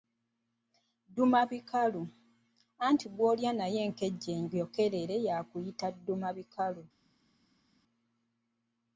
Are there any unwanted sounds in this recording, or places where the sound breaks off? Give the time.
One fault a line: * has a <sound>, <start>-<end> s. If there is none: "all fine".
all fine